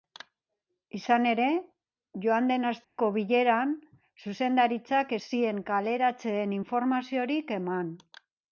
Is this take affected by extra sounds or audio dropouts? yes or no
yes